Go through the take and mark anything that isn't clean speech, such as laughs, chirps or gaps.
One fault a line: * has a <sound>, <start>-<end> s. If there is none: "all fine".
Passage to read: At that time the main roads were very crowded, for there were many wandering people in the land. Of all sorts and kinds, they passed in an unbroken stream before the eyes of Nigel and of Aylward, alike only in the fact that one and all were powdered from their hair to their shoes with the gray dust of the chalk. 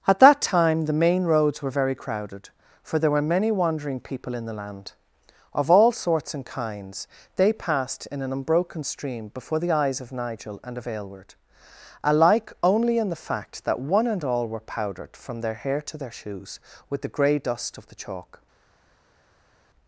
all fine